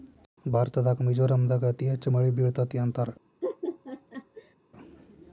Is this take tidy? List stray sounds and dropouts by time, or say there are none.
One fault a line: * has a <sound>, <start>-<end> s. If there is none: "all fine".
* has a laugh, 3.4-4.6 s